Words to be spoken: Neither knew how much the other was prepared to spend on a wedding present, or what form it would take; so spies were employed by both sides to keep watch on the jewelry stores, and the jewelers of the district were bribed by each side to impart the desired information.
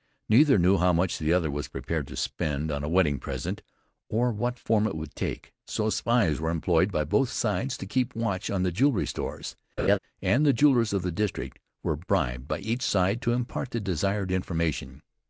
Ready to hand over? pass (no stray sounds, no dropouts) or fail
fail